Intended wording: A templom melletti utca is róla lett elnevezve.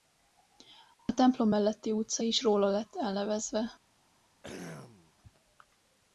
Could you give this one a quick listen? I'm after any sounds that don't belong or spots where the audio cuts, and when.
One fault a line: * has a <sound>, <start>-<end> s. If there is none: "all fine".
* has a throat clearing, 4.4-5.1 s